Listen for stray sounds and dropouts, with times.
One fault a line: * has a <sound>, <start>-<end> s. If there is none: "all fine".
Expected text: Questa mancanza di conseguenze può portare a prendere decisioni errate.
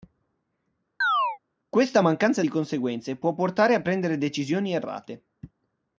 * has a chirp, 1.0-1.4 s